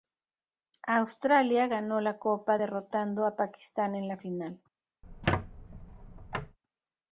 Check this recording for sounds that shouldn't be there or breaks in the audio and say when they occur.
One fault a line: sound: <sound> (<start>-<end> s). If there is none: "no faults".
sound: squeak (5.0-6.6 s)